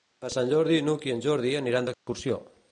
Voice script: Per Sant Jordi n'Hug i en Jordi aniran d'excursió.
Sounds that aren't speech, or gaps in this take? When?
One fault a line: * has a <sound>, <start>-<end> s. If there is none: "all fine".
* has a dropout, 1.9-2.1 s